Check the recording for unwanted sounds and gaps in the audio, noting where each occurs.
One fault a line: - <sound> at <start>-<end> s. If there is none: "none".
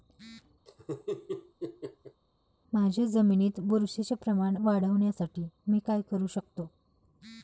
- laugh at 0.7-2.2 s